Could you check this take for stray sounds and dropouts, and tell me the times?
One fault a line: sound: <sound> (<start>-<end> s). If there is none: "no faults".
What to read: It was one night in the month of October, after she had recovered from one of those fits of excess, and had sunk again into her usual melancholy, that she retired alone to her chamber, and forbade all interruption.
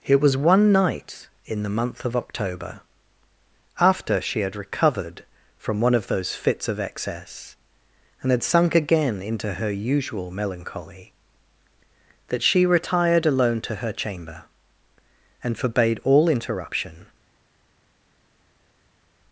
no faults